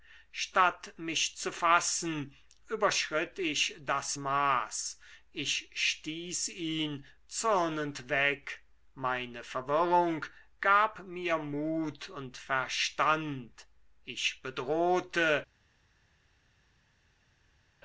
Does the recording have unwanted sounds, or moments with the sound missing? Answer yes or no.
no